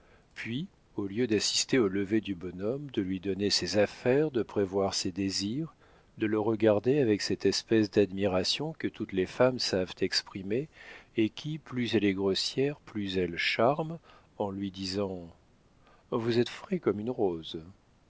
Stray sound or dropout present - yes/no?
no